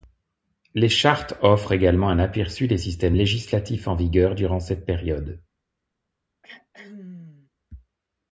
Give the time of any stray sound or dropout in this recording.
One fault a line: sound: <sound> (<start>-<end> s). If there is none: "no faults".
sound: throat clearing (6.4-7.5 s)